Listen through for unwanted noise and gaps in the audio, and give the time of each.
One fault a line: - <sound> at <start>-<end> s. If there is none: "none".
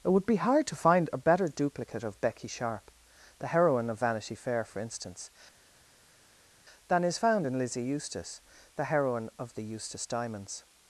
none